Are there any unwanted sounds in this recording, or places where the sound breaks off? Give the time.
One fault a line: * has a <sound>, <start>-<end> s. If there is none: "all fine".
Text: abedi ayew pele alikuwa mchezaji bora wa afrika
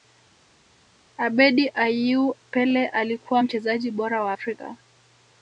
all fine